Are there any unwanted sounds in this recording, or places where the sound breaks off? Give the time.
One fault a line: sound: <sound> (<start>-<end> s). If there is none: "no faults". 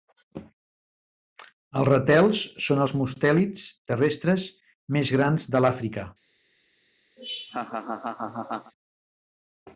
sound: laugh (7.2-8.7 s)